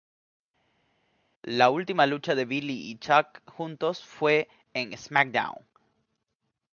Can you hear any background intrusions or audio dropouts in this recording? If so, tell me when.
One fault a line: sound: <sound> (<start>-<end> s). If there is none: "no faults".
no faults